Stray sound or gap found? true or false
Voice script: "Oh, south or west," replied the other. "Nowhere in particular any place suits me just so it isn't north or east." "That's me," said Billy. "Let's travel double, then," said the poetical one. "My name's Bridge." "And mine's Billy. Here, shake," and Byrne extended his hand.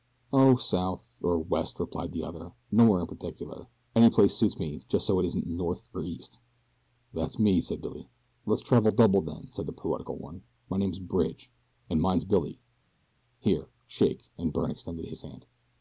false